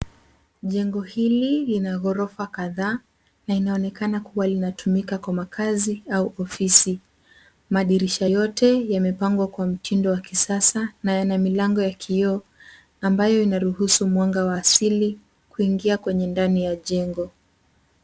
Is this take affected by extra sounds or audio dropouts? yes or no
no